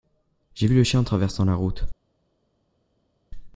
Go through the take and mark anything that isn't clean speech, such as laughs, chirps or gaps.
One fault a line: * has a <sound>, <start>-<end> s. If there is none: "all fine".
all fine